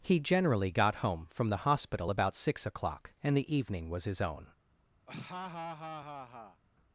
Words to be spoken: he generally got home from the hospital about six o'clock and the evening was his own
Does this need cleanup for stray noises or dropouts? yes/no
yes